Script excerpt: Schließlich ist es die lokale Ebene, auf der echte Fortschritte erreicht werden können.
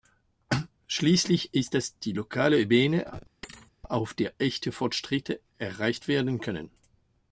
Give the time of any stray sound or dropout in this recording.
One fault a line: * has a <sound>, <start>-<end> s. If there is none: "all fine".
* has a thud, 3.4-3.7 s